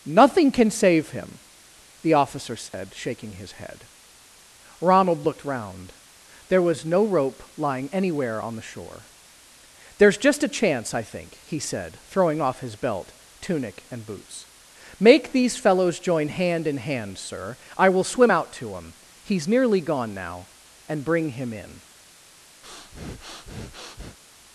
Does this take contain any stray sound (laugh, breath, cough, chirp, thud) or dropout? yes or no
yes